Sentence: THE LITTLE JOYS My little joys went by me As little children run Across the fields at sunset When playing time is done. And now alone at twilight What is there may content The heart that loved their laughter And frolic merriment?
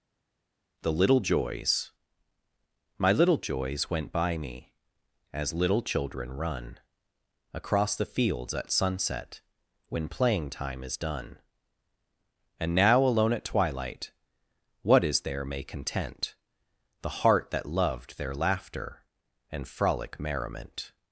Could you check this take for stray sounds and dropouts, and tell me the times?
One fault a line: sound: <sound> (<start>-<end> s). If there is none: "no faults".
no faults